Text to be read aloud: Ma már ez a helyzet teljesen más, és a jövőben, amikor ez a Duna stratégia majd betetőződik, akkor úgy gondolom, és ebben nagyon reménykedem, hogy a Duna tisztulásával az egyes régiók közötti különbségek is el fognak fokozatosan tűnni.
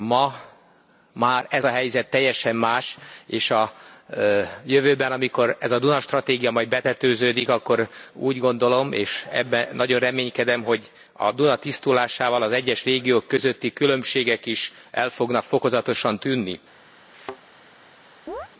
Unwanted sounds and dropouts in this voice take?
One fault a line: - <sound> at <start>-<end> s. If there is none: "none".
- thud at 17.1-17.4 s
- chirp at 18.3-18.5 s